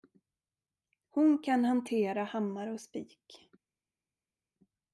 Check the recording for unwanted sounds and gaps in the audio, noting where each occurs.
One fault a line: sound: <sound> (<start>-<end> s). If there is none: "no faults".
no faults